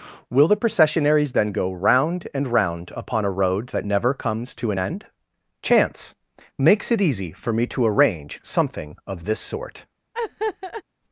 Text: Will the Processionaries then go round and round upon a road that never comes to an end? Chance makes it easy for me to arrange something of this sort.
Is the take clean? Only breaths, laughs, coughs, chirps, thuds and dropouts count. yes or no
no